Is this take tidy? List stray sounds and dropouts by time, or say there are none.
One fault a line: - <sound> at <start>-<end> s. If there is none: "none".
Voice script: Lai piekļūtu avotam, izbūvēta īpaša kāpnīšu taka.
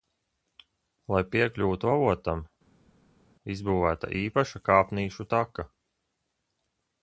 none